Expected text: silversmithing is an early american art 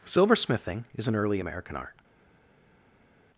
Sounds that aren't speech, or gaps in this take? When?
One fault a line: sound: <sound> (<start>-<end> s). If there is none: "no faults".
no faults